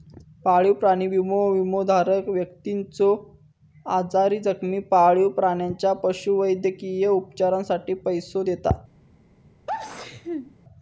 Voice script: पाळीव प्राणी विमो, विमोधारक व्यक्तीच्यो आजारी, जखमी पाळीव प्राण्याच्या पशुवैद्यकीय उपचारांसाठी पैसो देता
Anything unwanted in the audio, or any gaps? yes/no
yes